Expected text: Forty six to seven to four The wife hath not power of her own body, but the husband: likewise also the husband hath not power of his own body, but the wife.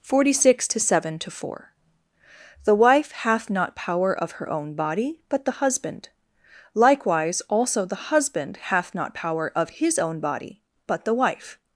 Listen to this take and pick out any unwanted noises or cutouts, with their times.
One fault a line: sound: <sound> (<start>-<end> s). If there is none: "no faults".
no faults